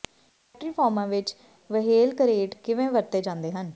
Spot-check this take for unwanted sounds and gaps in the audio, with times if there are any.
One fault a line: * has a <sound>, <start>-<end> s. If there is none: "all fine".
all fine